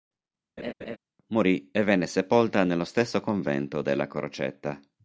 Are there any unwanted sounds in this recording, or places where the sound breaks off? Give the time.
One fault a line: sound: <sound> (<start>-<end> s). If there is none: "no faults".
sound: laugh (0.6-1.0 s)